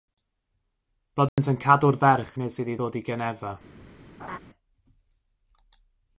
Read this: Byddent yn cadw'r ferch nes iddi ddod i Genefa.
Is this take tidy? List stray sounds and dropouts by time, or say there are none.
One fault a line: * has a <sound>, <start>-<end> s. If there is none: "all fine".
* has a dropout, 1.3-1.4 s
* has a laugh, 4.2-4.4 s